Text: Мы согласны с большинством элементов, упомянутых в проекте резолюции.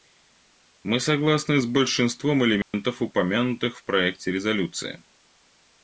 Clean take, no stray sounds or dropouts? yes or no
no